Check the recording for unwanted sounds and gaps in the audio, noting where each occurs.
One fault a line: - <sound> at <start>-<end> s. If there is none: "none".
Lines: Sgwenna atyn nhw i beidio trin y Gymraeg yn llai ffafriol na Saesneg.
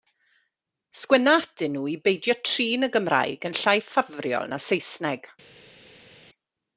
none